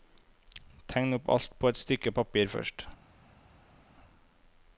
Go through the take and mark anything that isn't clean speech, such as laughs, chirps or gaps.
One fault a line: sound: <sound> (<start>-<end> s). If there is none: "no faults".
no faults